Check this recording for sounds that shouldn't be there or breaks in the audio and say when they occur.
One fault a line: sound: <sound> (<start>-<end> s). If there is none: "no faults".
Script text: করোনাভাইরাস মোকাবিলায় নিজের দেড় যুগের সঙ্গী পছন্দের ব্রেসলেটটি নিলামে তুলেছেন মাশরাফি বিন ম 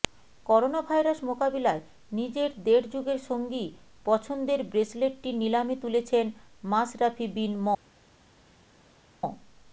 no faults